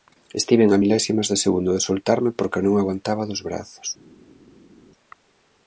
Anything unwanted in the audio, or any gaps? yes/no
no